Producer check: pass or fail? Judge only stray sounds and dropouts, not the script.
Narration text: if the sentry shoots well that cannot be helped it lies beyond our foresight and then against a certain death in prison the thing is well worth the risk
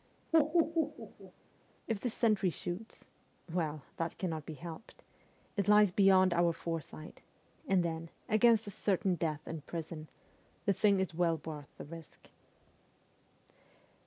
fail